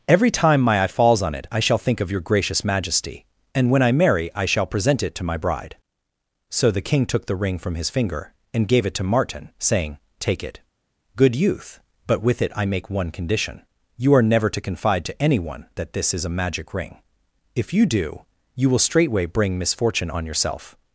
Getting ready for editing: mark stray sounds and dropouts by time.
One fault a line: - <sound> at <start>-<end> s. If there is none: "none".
none